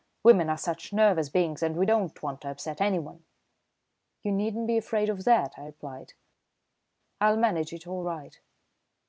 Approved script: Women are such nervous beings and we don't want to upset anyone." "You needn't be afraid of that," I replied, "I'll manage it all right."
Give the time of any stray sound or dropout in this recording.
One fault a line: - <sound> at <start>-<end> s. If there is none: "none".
none